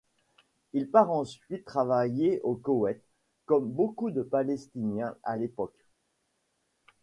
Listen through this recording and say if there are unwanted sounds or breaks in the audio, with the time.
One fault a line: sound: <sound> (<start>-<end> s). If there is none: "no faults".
no faults